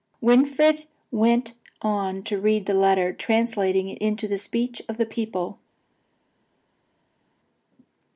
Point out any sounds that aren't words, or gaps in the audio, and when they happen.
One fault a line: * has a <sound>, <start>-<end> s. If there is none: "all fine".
all fine